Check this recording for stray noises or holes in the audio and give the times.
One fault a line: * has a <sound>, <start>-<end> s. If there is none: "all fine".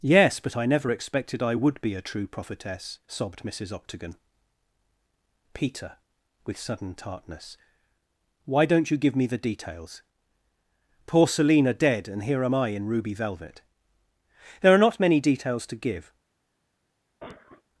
* has a cough, 17.2-17.6 s